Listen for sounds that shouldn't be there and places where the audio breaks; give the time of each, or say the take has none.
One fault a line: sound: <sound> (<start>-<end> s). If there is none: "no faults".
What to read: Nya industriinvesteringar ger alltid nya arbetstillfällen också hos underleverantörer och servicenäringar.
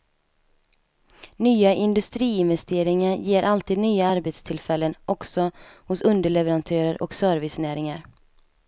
no faults